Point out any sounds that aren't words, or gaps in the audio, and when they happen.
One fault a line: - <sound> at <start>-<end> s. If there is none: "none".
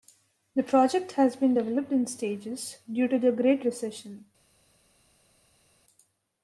none